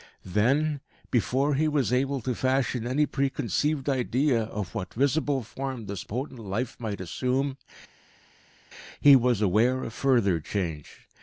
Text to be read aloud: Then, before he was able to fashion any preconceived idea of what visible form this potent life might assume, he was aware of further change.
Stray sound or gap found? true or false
false